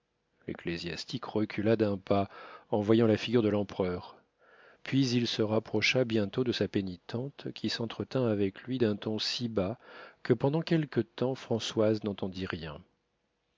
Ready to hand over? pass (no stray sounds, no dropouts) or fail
pass